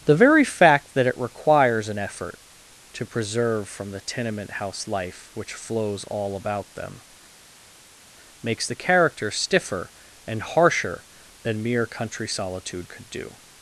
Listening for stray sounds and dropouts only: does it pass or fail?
pass